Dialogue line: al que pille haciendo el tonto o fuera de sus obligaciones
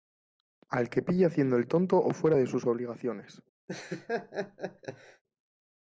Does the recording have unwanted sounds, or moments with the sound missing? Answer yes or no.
yes